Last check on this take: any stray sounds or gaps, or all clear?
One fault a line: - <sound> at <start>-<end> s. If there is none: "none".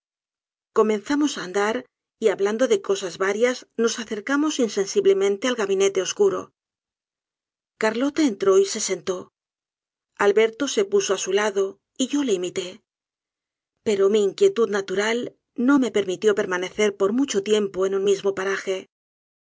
none